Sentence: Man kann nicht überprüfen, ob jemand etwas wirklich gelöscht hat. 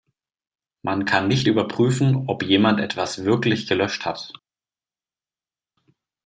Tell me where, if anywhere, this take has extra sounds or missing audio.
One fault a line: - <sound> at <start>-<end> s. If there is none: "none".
none